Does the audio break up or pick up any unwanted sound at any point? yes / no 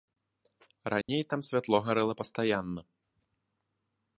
yes